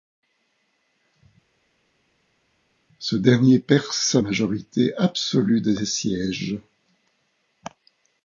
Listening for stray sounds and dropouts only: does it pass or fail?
pass